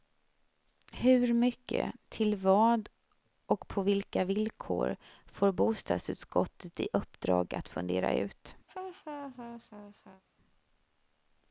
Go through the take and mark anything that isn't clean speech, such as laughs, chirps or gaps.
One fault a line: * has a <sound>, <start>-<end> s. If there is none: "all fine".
* has a laugh, 8.7-10.2 s